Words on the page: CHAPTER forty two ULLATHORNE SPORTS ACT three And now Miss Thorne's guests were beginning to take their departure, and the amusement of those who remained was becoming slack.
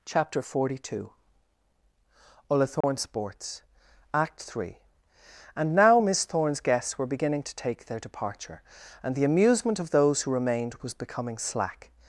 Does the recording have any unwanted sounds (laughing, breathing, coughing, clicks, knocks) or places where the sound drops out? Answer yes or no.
yes